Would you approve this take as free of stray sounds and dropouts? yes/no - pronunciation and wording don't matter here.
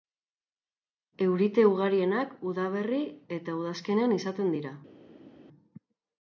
yes